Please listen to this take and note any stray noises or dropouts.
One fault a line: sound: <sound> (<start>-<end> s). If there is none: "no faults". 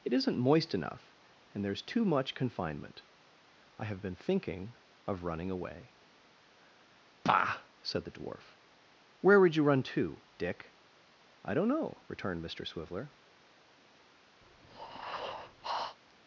sound: breath (14.4-16.0 s)